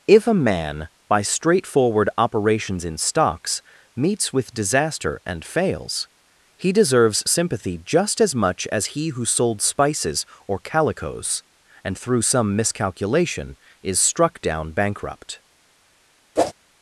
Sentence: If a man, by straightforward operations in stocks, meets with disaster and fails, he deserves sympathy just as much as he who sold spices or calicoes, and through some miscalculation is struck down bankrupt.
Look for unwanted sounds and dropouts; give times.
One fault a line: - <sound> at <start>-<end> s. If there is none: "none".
- whoosh at 16.4-16.5 s